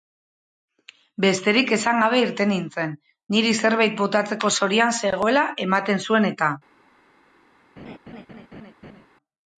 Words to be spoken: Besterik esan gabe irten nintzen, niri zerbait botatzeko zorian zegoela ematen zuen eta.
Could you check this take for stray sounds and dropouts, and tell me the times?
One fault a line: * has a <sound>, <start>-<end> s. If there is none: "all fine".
* has a laugh, 7.8-9.1 s